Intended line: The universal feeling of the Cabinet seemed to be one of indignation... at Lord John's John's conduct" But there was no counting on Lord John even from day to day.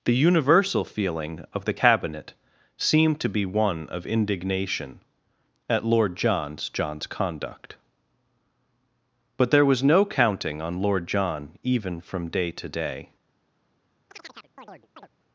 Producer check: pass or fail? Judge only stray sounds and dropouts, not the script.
fail